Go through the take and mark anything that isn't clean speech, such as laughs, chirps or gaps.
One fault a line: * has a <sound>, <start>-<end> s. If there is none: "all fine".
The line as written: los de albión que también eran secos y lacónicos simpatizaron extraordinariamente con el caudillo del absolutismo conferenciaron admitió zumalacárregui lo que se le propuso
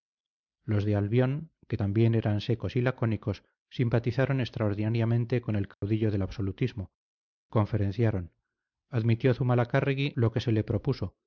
* has a dropout, 5.7-5.8 s